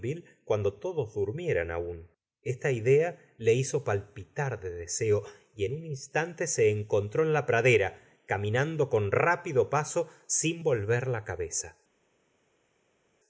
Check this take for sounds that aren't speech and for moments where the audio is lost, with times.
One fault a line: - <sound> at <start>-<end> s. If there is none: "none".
none